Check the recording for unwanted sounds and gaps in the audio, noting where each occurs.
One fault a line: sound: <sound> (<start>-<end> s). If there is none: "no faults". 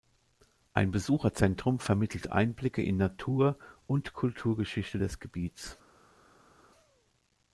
no faults